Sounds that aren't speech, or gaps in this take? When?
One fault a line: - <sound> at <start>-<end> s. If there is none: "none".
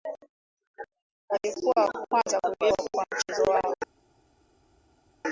none